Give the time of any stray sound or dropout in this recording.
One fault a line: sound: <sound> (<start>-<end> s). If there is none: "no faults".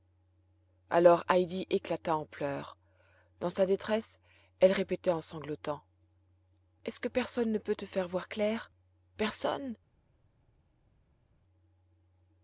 no faults